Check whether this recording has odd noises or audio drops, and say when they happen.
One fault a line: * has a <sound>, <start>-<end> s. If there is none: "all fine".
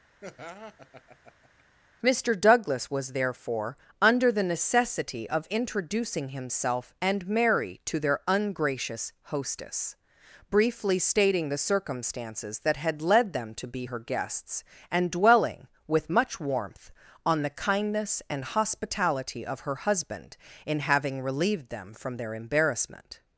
* has a laugh, 0.2-1.6 s